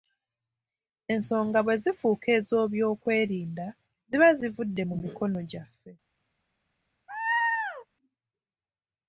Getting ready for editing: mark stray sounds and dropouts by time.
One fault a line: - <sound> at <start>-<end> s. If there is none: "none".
- laugh at 7.1-7.9 s